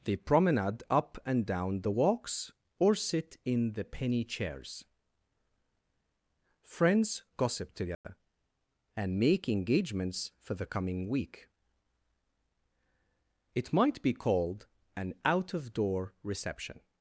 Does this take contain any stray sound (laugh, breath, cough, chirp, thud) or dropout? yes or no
yes